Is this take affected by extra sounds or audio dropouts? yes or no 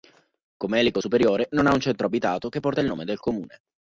no